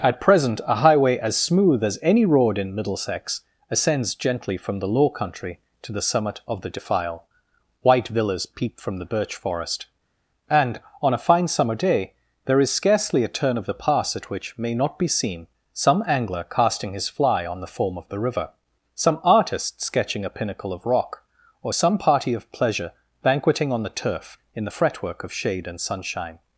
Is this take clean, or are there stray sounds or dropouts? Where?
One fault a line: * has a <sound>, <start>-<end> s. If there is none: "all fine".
all fine